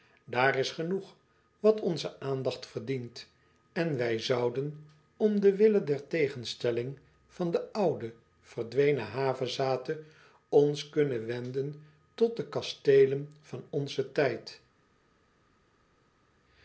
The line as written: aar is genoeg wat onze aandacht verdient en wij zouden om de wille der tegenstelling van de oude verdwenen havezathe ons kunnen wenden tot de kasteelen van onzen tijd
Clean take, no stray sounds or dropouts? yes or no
yes